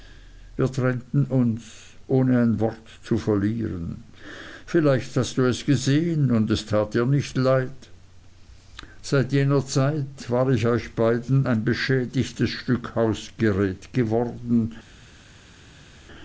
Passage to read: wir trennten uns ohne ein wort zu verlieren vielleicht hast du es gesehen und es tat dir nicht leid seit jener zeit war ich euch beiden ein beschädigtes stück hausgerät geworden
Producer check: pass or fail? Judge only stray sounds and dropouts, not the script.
pass